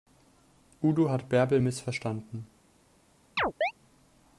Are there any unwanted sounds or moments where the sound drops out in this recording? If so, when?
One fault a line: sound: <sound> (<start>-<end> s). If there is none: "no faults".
sound: chirp (3.4-3.7 s)